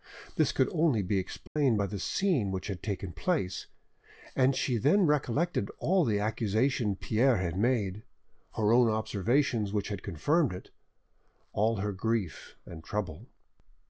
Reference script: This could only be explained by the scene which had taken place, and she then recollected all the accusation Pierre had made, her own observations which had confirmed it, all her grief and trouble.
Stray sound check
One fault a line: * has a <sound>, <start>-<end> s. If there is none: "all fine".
* has a dropout, 1.5-1.6 s